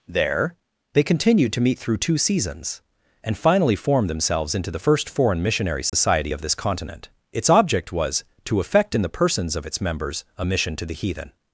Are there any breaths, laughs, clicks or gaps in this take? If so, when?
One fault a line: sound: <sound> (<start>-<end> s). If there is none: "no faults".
sound: dropout (5.9-5.9 s)